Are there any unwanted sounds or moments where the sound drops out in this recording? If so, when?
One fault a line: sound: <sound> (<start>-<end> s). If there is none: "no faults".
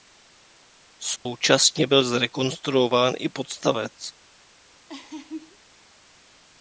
sound: dropout (1.2-1.3 s)
sound: laugh (4.9-5.6 s)